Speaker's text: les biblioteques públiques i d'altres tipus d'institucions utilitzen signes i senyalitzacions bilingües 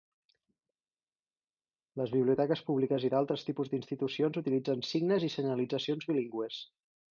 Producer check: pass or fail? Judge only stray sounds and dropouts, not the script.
pass